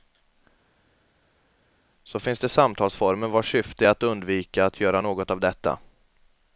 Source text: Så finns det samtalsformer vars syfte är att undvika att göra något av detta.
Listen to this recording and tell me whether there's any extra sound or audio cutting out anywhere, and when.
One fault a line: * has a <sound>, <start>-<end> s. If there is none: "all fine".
all fine